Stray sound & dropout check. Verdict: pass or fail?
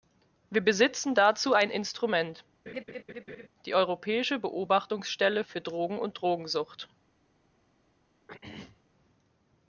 fail